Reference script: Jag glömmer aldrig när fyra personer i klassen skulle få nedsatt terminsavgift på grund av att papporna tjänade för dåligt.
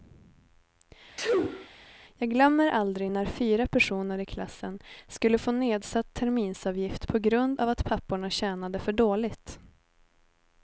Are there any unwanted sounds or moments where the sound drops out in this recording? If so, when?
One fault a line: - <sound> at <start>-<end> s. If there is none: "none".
- sneeze at 1.2-1.7 s